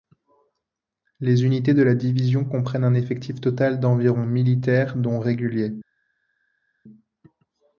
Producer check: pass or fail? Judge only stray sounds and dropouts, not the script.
pass